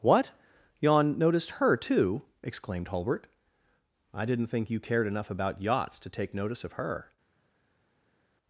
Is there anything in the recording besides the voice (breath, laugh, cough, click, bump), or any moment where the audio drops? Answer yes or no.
no